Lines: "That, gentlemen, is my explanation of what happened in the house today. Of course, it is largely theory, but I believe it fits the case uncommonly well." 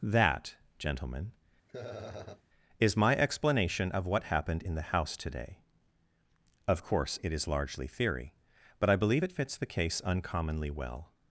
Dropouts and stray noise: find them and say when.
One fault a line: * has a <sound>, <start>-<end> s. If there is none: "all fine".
* has a laugh, 1.7-2.4 s